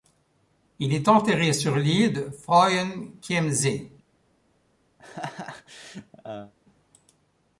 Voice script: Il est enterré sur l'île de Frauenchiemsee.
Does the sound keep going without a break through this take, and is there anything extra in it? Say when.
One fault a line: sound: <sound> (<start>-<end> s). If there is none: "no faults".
sound: laugh (5.0-6.5 s)